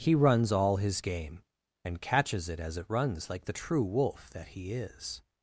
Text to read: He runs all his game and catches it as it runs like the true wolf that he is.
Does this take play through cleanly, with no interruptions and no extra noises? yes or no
yes